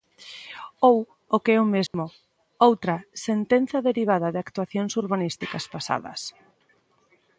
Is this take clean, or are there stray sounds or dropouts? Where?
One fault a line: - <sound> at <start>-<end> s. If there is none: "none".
- dropout at 1.9-1.9 s